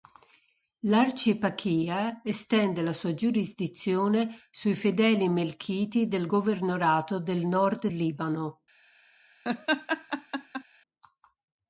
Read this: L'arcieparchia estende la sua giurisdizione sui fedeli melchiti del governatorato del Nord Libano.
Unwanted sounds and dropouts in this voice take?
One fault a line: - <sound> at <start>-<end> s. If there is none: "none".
- laugh at 9.4-10.6 s